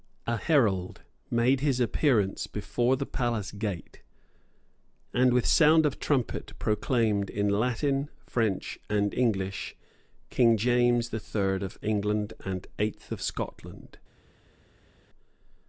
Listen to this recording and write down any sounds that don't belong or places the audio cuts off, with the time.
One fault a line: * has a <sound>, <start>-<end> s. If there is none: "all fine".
all fine